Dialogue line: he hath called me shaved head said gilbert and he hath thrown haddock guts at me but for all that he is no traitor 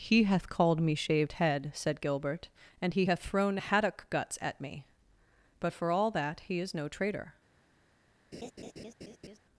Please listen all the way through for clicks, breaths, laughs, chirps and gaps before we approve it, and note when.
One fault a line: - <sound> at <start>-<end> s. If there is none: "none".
- laugh at 8.3-9.4 s